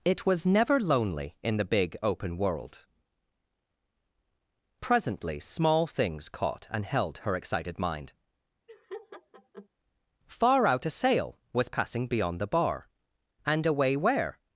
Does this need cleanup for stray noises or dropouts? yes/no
yes